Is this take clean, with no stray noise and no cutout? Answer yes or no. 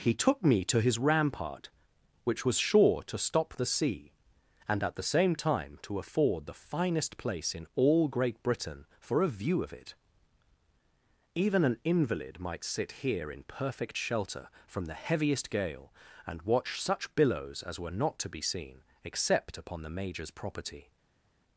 yes